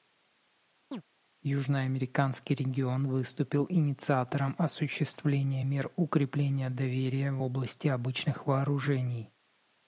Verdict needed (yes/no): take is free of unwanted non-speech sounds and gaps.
no